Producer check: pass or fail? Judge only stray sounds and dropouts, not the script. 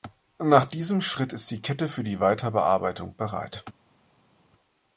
pass